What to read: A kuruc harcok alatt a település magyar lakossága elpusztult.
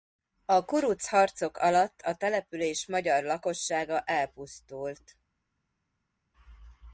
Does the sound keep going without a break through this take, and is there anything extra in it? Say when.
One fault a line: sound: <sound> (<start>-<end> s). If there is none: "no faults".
no faults